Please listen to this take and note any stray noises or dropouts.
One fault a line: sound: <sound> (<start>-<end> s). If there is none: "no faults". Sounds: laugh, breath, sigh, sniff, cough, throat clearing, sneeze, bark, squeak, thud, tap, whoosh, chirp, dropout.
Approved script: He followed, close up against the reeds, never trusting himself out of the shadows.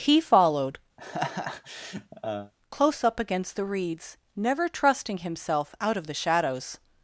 sound: laugh (1.0-2.5 s)